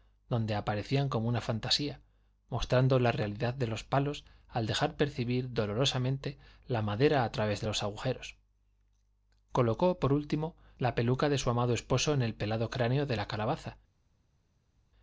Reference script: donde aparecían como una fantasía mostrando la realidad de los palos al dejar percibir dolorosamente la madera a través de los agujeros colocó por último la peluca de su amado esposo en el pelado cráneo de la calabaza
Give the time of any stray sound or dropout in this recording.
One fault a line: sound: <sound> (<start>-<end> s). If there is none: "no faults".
no faults